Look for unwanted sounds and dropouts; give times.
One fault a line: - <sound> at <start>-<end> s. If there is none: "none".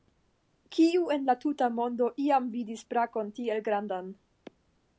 none